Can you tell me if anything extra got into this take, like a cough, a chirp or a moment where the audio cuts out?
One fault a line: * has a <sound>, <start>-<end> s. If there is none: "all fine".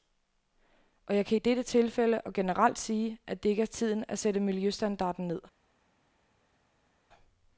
all fine